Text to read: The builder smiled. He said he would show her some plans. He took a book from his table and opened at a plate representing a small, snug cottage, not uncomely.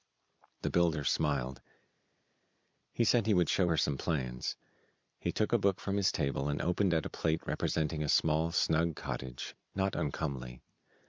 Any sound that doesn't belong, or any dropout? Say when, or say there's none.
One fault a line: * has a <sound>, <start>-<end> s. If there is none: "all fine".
all fine